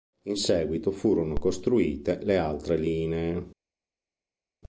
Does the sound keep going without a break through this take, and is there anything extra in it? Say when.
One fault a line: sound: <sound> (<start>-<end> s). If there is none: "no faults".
no faults